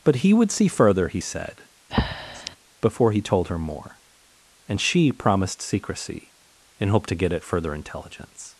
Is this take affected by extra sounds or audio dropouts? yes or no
yes